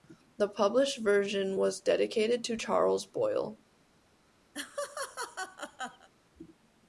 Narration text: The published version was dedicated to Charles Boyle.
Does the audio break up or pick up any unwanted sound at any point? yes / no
yes